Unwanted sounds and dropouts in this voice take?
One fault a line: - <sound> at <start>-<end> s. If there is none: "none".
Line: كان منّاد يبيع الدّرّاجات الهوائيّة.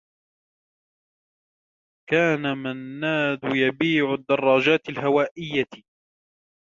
none